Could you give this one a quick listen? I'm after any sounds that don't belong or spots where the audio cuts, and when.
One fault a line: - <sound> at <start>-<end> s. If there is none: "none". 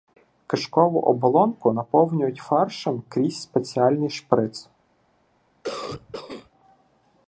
- cough at 5.6-6.5 s